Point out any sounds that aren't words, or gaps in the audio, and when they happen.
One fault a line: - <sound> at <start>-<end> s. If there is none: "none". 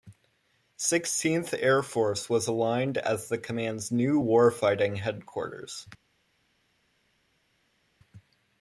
none